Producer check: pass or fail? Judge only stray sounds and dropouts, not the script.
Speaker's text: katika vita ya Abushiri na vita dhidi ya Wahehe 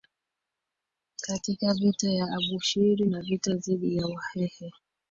pass